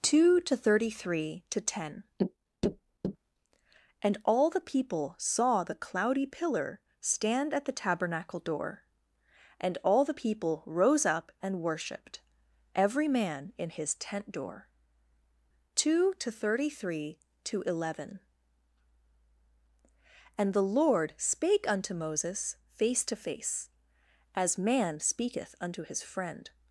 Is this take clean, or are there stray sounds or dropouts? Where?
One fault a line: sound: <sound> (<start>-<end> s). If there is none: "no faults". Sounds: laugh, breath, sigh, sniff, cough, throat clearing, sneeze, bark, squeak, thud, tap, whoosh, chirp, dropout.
no faults